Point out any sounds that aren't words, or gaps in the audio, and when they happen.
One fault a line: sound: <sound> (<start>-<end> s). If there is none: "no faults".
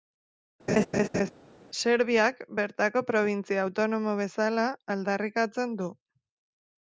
sound: laugh (0.7-1.3 s)